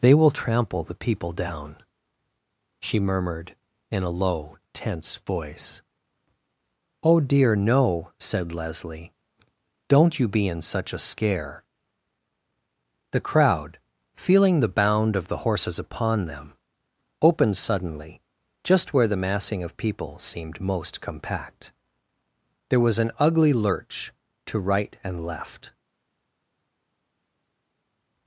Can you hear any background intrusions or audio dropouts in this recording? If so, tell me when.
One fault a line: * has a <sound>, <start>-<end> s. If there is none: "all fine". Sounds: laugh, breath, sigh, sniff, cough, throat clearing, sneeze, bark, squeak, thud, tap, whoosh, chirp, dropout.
all fine